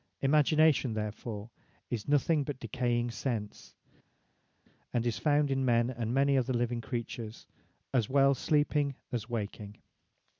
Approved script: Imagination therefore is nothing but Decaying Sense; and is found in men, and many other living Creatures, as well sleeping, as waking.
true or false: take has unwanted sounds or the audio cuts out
false